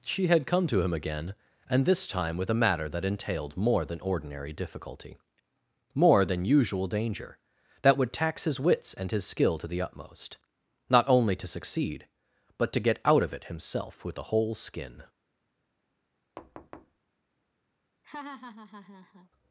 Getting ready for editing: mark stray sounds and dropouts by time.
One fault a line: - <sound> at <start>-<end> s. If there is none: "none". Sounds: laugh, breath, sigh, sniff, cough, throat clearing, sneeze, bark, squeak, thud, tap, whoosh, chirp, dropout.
- thud at 16.4-17.0 s
- laugh at 18.0-19.3 s